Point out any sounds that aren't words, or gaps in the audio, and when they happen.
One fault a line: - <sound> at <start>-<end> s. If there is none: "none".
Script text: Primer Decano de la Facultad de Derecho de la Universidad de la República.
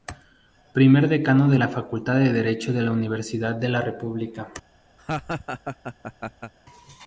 - laugh at 5.0-6.5 s